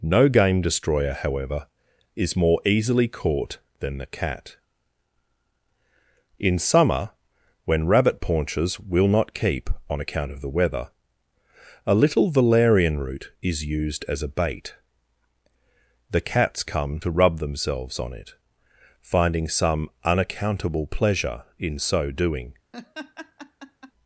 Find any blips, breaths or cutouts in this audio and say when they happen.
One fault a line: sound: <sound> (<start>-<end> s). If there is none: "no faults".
sound: laugh (22.7-23.9 s)